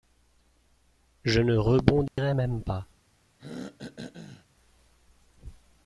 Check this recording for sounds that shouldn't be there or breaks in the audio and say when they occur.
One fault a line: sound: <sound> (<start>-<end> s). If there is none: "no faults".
sound: dropout (2.1-2.2 s)
sound: throat clearing (3.4-4.5 s)